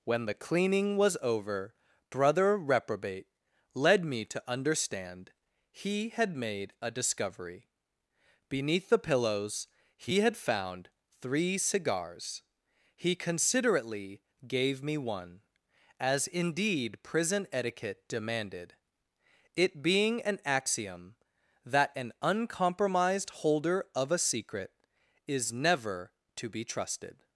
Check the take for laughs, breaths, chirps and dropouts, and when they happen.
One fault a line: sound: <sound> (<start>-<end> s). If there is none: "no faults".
no faults